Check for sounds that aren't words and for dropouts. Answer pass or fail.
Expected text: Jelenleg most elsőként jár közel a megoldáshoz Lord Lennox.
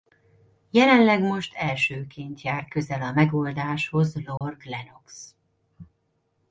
fail